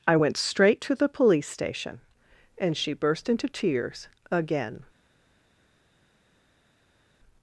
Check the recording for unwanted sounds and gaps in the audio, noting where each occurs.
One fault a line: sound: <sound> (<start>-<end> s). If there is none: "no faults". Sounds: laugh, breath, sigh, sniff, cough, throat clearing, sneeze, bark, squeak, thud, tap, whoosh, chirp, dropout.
no faults